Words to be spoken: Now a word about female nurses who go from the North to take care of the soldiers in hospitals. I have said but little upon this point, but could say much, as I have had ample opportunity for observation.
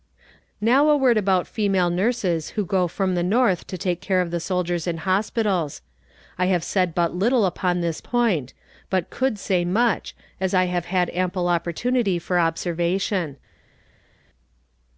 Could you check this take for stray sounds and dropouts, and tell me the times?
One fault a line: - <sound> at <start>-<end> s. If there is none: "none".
none